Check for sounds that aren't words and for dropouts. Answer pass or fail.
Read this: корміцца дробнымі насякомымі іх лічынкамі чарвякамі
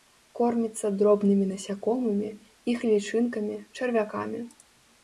pass